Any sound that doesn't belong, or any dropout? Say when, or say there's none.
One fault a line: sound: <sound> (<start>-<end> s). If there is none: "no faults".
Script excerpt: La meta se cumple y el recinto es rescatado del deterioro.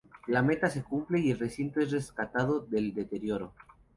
no faults